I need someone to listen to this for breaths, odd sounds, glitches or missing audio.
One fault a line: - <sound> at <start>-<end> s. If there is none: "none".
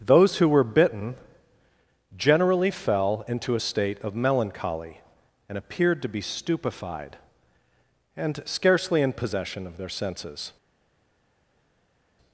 none